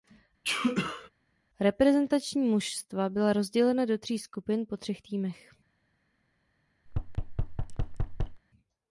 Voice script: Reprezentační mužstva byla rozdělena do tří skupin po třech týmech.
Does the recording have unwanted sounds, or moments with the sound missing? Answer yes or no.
yes